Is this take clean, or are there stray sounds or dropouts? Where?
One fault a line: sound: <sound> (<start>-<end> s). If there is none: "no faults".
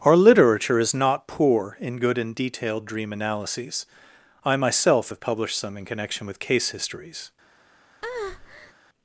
sound: breath (8.0-8.7 s)